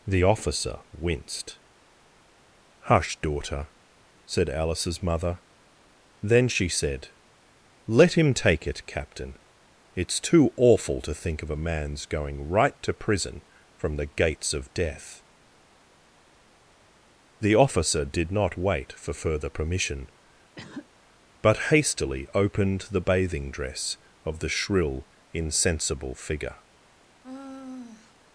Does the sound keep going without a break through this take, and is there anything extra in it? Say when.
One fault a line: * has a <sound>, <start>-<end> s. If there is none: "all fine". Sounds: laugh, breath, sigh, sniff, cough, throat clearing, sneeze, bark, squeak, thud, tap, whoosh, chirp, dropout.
* has a cough, 20.6-20.9 s
* has a sigh, 27.2-28.1 s